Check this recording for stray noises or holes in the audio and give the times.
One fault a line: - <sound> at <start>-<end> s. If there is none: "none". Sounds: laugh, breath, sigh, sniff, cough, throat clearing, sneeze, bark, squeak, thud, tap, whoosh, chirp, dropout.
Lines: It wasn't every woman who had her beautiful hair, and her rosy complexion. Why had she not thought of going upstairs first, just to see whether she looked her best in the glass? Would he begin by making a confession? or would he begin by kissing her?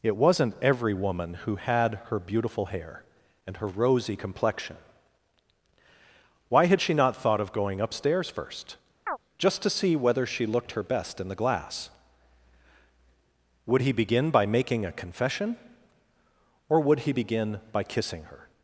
- chirp at 9.1-9.2 s